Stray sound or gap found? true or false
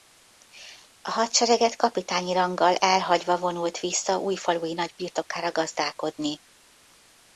false